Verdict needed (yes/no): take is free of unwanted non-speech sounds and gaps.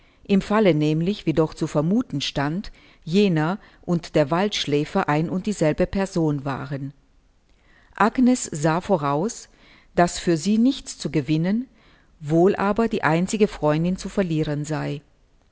yes